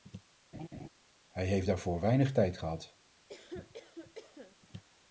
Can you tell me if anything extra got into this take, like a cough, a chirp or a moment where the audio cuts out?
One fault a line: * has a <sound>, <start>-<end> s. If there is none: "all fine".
* has a laugh, 0.5-0.9 s
* has a cough, 3.3-4.6 s